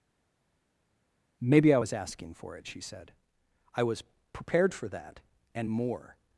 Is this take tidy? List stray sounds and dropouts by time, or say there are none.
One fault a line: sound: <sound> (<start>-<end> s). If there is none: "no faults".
no faults